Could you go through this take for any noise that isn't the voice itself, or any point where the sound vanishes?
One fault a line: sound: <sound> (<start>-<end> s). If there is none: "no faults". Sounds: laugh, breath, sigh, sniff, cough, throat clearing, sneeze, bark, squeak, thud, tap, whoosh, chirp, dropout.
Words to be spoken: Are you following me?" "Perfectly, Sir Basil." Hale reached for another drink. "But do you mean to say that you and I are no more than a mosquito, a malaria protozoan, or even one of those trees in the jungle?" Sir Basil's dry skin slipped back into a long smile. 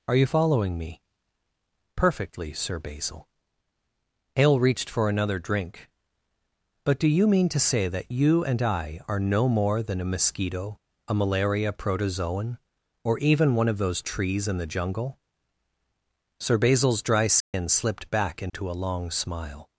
sound: dropout (17.4-17.5 s)
sound: dropout (18.5-18.5 s)